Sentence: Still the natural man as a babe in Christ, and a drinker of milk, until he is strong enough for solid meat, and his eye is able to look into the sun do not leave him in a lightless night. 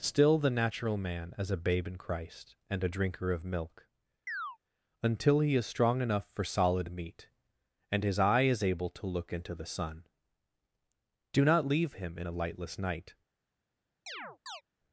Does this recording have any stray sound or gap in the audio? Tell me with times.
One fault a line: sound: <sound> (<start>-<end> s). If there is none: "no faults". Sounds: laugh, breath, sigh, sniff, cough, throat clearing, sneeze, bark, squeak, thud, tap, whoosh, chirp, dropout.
sound: chirp (4.3-4.6 s)
sound: chirp (14.1-14.6 s)